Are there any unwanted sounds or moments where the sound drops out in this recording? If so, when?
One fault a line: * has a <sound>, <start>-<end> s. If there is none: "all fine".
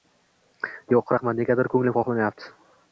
all fine